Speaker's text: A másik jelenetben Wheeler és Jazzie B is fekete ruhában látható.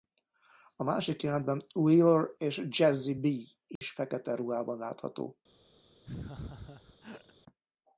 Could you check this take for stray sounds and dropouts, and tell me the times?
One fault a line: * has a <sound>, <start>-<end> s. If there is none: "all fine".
* has a dropout, 3.8-3.8 s
* has a laugh, 6.0-7.3 s